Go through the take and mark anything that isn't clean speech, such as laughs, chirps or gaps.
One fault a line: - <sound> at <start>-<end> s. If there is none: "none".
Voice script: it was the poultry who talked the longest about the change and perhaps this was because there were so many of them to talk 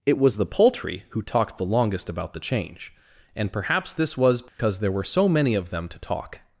- dropout at 4.5-4.6 s